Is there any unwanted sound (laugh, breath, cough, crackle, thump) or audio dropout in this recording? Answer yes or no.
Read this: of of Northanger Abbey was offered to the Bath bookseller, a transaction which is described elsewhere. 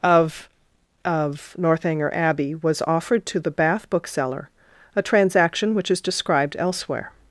no